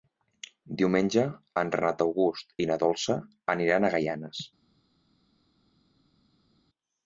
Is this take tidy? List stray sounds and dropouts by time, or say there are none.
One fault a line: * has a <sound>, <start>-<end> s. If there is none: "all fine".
all fine